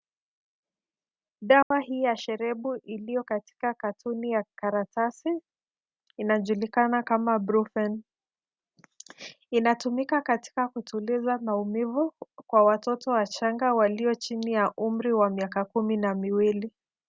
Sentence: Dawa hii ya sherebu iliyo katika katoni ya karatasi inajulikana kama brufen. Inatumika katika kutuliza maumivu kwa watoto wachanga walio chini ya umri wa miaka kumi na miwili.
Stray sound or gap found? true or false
true